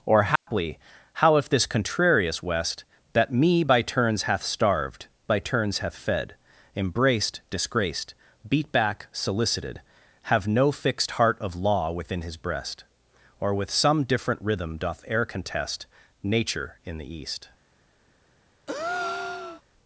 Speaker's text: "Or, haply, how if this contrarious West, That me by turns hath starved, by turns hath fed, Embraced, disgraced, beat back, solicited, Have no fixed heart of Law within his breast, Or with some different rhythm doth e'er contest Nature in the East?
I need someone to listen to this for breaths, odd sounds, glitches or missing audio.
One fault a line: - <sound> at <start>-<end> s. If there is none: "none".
- dropout at 0.4-0.5 s
- breath at 18.7-19.6 s